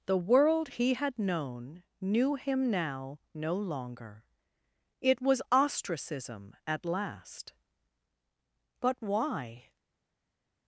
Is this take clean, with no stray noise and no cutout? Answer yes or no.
yes